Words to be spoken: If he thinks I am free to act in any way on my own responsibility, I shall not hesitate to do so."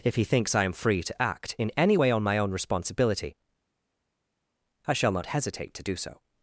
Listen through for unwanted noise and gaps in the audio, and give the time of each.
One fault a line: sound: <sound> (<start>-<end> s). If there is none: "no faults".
no faults